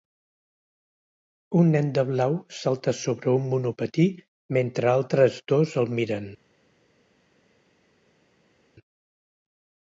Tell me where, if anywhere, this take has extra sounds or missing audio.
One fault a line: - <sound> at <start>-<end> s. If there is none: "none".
none